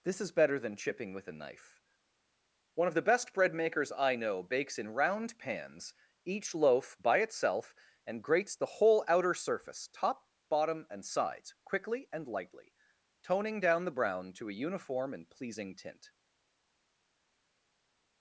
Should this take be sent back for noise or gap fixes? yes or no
no